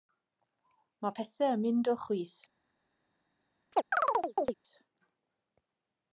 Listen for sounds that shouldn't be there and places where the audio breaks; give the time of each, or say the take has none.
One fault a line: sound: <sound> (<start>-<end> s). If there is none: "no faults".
sound: chirp (3.7-4.5 s)